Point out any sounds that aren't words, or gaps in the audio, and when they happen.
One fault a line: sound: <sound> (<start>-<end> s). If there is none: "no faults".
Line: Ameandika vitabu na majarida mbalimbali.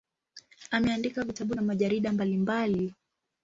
no faults